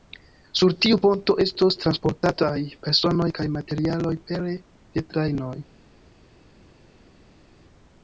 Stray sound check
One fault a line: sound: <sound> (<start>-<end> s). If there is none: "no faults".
no faults